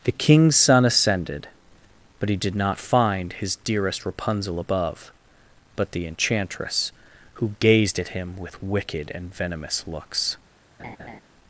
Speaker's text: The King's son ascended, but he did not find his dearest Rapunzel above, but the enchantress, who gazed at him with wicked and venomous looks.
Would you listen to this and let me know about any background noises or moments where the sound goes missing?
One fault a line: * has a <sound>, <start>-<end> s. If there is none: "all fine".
* has a laugh, 10.8-11.2 s